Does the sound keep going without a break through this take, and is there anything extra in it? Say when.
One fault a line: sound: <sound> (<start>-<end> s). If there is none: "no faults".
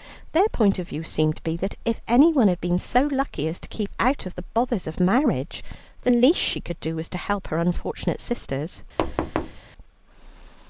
sound: thud (9.0-9.6 s)